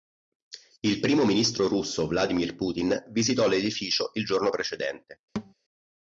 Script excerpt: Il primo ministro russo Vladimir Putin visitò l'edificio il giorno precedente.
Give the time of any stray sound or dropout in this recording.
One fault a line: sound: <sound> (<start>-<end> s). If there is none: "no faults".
sound: thud (5.4-5.5 s)